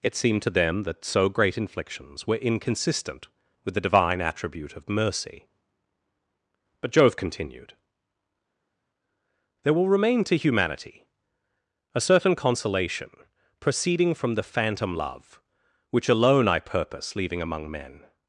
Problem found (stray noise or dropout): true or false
false